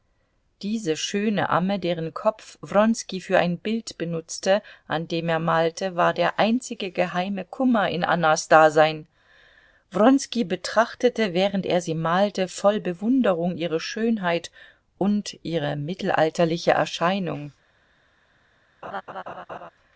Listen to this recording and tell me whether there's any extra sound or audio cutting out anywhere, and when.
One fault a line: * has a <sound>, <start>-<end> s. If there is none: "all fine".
* has a laugh, 18.8-19.7 s